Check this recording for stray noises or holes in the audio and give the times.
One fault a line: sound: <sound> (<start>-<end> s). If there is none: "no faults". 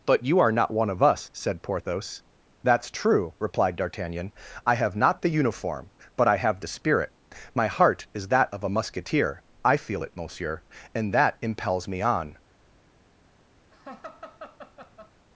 sound: laugh (13.7-15.1 s)